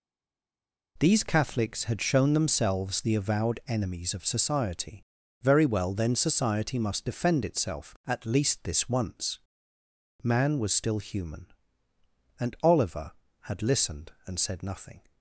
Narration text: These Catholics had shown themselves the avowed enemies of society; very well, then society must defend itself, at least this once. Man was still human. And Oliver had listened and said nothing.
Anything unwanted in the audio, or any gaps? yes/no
no